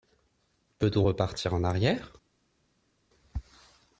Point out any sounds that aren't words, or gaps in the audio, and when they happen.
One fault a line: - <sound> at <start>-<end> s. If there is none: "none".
none